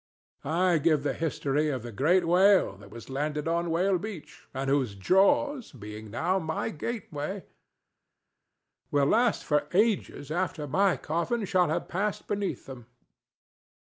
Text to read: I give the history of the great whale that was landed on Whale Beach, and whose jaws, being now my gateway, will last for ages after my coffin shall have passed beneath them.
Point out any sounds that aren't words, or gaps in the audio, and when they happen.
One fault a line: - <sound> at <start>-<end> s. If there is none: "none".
none